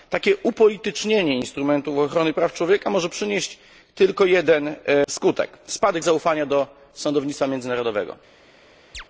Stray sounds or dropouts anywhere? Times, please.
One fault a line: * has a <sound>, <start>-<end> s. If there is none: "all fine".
* has a chirp, 8.9-9.0 s